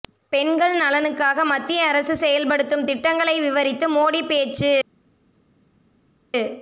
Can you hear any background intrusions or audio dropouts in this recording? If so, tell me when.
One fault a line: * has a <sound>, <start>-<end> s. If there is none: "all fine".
all fine